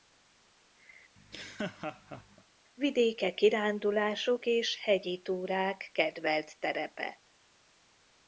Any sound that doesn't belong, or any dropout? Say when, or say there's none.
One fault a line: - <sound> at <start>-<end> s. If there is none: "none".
- laugh at 1.2-2.4 s